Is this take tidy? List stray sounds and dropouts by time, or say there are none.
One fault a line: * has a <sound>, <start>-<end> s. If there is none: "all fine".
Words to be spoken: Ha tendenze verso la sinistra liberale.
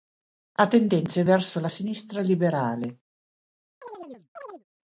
* has a chirp, 3.8-4.6 s